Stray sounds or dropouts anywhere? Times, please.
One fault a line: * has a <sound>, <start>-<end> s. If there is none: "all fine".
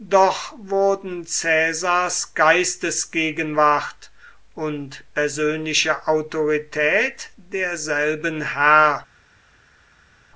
all fine